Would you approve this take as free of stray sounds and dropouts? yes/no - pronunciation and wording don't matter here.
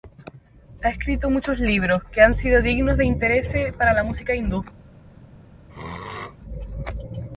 no